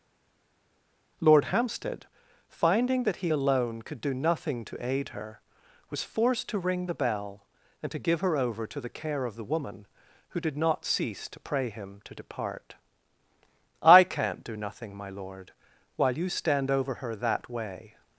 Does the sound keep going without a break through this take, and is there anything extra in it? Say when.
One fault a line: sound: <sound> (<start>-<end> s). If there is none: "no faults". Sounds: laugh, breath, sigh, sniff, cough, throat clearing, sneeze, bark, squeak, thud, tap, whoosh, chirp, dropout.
no faults